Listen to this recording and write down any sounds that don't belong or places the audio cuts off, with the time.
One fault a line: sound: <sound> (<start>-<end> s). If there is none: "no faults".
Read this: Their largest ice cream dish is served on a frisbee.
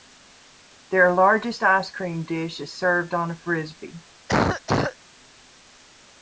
sound: cough (4.3-5.0 s)